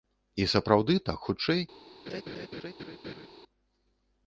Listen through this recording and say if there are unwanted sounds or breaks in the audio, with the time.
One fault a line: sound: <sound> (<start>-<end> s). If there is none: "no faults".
sound: laugh (2.1-3.3 s)